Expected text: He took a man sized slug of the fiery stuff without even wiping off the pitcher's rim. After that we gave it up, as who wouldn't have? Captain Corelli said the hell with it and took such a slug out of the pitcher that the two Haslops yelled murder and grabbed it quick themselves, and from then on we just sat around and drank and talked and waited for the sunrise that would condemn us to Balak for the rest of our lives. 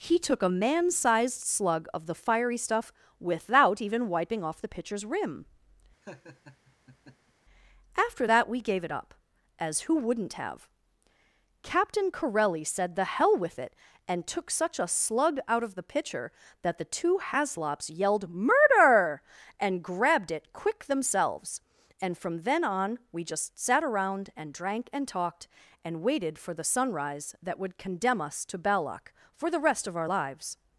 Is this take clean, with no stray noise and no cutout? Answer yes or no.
no